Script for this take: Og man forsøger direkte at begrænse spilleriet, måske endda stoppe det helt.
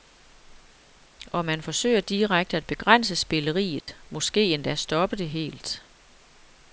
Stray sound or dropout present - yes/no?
yes